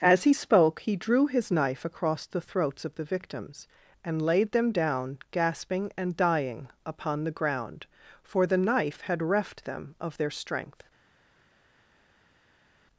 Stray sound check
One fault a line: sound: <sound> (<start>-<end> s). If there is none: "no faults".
no faults